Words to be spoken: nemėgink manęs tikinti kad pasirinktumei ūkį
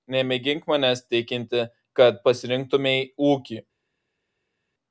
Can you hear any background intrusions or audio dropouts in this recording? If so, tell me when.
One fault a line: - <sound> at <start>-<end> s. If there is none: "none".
none